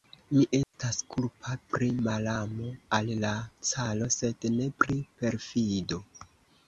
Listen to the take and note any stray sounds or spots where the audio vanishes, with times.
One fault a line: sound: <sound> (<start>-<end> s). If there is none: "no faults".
sound: dropout (0.6-0.7 s)